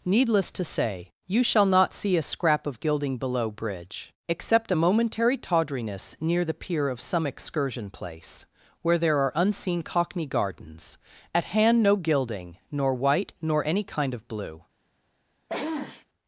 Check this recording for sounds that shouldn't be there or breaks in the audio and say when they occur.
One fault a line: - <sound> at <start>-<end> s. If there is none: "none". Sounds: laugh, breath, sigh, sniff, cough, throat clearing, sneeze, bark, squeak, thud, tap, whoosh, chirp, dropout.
- sneeze at 15.5-16.1 s